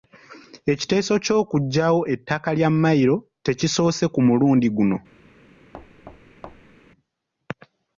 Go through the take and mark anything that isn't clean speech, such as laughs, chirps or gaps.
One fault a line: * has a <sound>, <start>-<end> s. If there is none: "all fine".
* has a thud, 5.7-6.8 s